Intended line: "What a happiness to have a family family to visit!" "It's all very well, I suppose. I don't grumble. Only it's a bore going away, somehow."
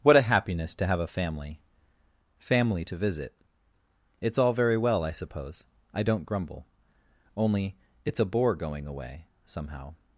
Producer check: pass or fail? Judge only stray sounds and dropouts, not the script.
pass